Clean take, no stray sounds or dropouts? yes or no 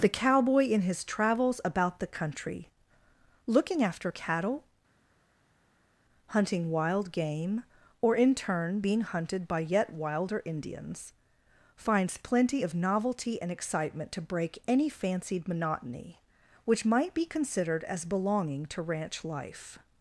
yes